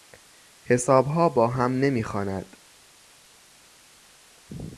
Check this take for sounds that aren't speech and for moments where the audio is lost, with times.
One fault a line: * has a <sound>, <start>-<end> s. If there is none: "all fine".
all fine